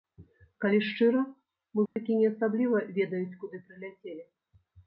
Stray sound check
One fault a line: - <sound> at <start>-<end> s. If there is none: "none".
- dropout at 1.9-2.0 s